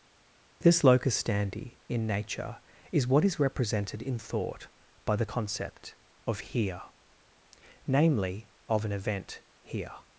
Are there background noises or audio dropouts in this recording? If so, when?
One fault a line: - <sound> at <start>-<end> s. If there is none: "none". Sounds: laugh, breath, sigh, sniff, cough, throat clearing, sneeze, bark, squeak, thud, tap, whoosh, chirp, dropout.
none